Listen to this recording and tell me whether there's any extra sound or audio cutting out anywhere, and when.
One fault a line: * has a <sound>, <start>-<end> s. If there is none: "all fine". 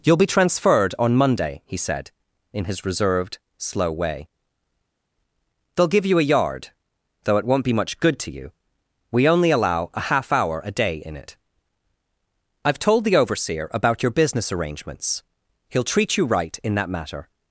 all fine